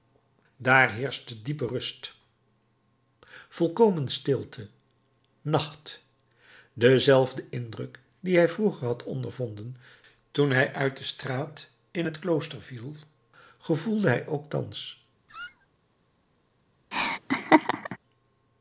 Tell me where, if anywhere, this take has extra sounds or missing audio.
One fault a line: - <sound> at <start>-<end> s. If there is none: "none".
- squeak at 15.3-15.7 s
- laugh at 16.9-18.0 s